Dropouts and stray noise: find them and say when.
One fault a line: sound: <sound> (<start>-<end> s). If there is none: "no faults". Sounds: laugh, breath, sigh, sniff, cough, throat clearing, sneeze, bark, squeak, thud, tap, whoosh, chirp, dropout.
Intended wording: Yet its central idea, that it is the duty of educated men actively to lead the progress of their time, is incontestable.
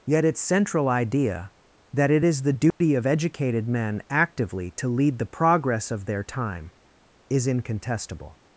sound: dropout (2.7-2.8 s)